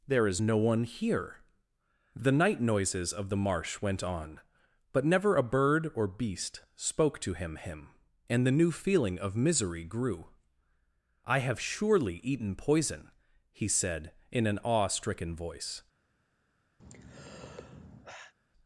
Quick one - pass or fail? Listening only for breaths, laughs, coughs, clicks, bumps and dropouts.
fail